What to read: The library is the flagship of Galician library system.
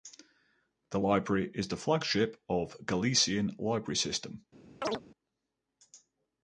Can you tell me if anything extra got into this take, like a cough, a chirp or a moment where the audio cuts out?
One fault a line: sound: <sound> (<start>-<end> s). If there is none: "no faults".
sound: chirp (4.8-5.0 s)